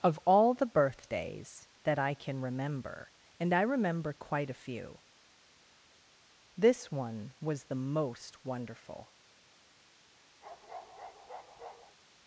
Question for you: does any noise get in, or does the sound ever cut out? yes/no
yes